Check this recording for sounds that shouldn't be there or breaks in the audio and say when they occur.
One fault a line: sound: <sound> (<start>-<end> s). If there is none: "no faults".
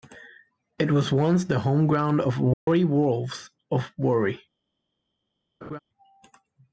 sound: dropout (2.5-2.7 s)
sound: laugh (5.6-5.8 s)